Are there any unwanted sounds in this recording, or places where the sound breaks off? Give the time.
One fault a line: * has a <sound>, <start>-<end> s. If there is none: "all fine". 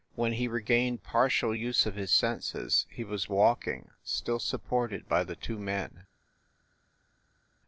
all fine